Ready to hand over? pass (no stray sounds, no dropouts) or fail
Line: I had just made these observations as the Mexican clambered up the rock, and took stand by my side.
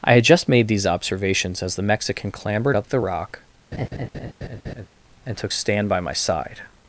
fail